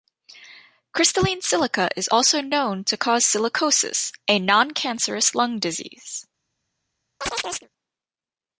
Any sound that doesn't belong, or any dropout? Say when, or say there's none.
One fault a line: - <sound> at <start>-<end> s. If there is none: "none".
- chirp at 7.2-7.7 s